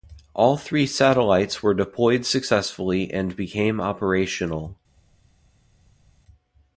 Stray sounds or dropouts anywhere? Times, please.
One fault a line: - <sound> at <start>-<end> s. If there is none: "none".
none